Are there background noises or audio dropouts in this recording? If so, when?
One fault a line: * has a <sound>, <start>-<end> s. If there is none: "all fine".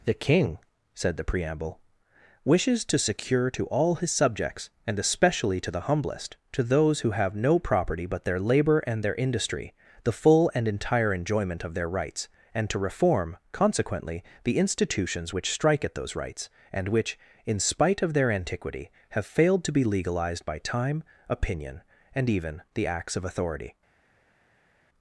all fine